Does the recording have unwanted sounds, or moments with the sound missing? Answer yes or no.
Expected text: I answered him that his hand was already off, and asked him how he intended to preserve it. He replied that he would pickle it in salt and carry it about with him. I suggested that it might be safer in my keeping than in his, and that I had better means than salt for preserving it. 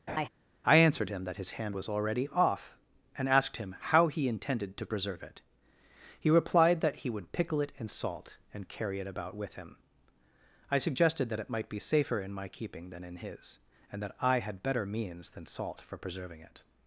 yes